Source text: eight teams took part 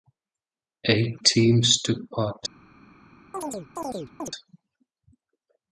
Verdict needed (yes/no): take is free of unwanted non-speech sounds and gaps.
no